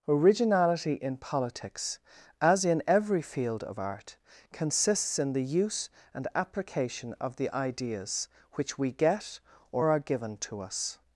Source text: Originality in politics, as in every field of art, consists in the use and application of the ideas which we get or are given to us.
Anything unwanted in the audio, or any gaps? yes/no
no